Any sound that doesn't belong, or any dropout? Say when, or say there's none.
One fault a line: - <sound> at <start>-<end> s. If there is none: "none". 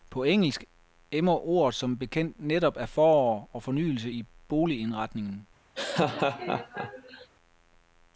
- laugh at 5.7-7.3 s